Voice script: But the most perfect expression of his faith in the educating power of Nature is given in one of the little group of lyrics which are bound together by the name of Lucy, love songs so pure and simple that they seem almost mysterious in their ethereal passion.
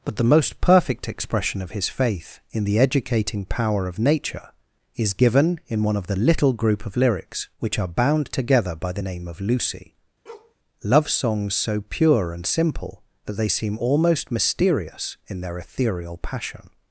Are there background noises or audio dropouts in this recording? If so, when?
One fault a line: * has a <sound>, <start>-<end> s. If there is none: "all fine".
* has a bark, 10.3-10.6 s